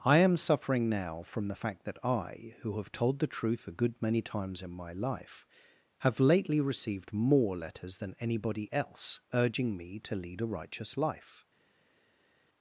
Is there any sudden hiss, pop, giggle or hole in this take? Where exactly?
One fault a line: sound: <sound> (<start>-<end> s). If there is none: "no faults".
no faults